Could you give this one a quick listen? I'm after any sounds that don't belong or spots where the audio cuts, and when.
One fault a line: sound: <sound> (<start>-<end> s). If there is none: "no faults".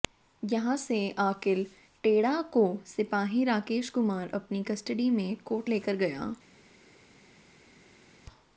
no faults